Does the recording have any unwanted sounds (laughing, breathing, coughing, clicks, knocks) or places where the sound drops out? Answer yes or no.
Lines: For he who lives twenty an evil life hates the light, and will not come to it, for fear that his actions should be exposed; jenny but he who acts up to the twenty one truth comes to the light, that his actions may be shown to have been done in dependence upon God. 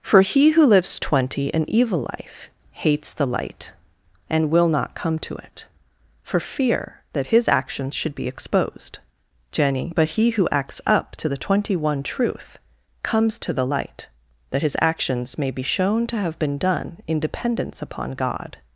no